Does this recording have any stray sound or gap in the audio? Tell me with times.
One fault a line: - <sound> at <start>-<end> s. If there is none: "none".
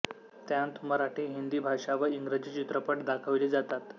none